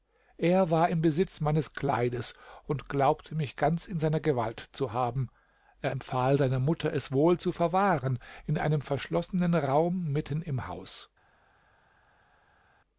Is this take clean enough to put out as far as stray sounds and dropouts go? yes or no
yes